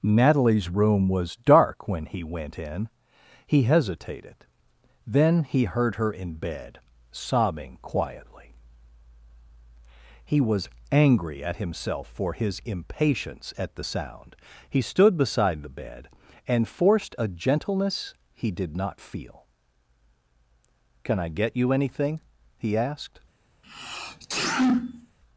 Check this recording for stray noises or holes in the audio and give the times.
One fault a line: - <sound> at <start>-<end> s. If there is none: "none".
- sneeze at 23.6-25.2 s